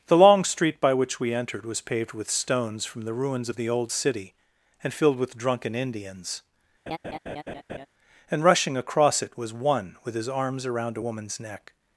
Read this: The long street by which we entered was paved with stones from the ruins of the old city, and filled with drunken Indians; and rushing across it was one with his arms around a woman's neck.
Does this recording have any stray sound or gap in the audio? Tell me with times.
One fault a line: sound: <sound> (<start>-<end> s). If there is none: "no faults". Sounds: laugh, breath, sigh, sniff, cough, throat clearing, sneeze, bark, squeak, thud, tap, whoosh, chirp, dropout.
sound: laugh (6.9-7.9 s)